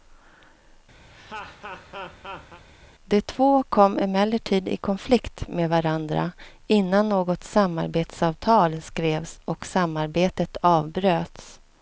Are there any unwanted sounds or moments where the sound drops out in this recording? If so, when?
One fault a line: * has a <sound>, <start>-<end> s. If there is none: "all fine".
* has a laugh, 1.1-2.6 s